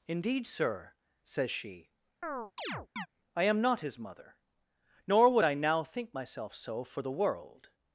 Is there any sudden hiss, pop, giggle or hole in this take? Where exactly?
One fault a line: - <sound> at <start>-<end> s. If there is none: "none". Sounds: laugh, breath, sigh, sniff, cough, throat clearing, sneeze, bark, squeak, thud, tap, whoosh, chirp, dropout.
- chirp at 2.2-3.1 s